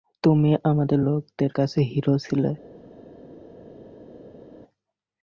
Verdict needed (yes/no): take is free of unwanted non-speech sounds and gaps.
yes